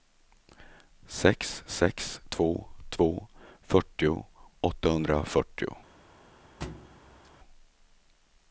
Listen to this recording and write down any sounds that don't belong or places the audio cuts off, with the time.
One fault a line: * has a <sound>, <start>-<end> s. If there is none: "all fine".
* has a thud, 6.6-7.3 s